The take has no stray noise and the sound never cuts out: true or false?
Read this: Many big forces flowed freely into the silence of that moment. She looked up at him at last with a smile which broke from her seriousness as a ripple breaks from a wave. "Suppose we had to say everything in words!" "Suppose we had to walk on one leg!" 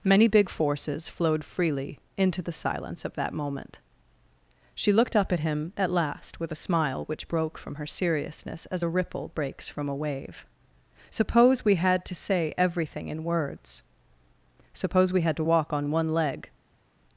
true